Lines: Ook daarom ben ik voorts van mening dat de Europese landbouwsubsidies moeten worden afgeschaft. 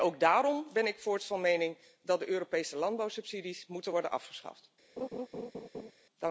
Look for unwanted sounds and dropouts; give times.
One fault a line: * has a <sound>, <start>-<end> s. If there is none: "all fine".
* has a laugh, 5.0-5.9 s